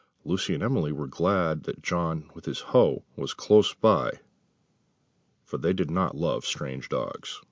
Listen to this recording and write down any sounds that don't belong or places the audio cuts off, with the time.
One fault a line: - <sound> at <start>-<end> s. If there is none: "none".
none